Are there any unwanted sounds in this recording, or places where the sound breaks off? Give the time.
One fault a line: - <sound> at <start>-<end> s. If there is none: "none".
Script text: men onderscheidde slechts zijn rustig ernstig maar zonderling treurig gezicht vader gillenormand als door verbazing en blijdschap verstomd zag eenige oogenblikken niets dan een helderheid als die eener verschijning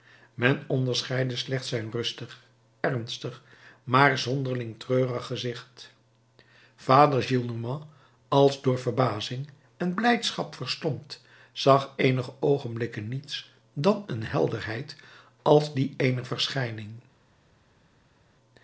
none